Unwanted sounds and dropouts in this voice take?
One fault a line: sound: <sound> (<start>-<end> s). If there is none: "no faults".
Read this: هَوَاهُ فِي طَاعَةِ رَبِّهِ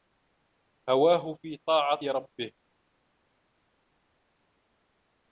no faults